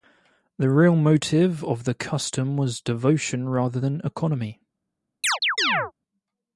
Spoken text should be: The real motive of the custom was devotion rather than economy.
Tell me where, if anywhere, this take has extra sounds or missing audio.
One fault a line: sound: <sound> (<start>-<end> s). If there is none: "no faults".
sound: chirp (5.2-5.9 s)